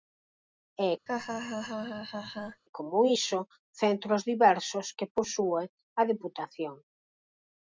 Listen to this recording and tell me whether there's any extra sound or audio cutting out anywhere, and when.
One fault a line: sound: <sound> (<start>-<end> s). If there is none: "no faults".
sound: laugh (1.1-2.6 s)